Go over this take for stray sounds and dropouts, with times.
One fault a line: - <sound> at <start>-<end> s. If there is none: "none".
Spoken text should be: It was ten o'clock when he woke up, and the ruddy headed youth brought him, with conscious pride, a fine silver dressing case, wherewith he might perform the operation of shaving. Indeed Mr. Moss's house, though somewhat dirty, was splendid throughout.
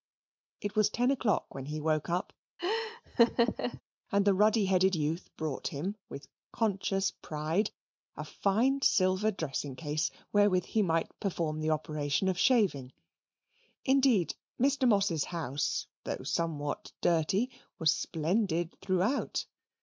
- laugh at 2.6-3.8 s